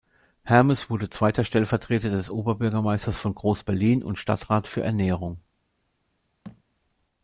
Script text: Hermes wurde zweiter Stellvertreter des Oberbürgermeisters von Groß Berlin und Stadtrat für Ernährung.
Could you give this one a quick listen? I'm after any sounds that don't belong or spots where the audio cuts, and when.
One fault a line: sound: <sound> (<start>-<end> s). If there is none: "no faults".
sound: thud (6.4-6.6 s)